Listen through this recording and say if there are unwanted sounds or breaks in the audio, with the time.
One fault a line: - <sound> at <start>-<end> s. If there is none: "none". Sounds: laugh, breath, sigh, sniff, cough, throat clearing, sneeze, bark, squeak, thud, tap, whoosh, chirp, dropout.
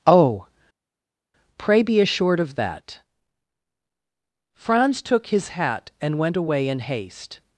none